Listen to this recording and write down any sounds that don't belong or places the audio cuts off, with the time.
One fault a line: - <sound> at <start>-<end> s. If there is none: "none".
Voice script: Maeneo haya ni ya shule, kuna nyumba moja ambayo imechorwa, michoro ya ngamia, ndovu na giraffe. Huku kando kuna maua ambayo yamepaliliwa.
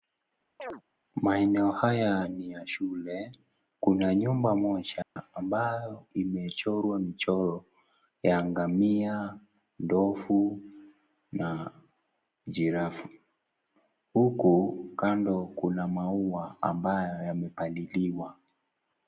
- chirp at 0.6-0.8 s
- dropout at 5.0-5.2 s